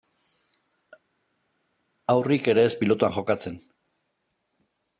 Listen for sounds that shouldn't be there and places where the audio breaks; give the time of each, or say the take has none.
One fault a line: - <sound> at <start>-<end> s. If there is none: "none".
none